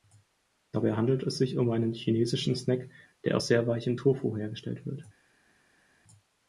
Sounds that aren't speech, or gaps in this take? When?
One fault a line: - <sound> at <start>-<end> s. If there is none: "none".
none